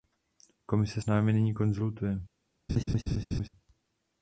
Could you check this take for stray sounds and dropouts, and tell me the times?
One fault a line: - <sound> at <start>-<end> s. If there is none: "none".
- laugh at 2.7-3.5 s